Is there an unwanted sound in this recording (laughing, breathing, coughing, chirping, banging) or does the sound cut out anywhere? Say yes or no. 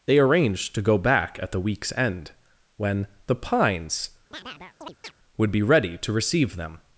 yes